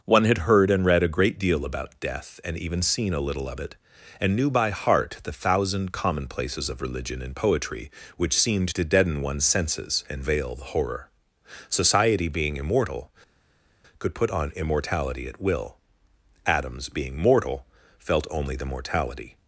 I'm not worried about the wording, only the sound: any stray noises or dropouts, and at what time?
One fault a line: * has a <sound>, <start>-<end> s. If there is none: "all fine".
all fine